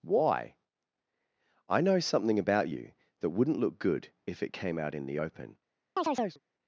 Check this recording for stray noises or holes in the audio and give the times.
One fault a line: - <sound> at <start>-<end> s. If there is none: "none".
- chirp at 6.0-6.4 s